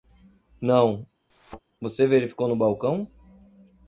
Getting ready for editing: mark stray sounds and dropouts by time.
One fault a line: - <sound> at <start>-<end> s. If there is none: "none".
- thud at 1.3-1.6 s